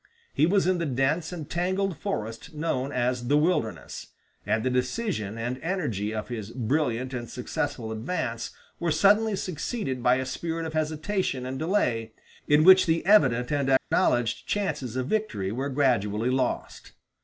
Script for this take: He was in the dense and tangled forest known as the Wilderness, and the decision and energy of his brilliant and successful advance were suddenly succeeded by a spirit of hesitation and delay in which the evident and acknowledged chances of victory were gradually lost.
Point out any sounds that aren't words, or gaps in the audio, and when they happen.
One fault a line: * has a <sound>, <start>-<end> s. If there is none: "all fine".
* has a dropout, 13.8-13.9 s